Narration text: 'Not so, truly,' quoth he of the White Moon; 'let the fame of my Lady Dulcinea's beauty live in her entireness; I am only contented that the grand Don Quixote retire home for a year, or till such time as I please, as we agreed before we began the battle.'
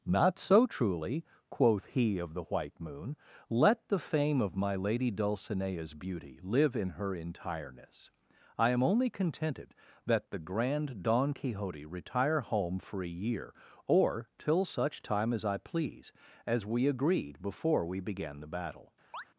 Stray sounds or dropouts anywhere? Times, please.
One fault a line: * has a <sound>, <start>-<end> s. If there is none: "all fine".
* has a chirp, 19.1-19.2 s